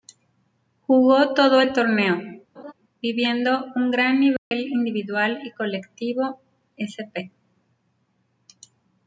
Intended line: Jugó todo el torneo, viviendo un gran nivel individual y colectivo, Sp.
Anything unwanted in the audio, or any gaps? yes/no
yes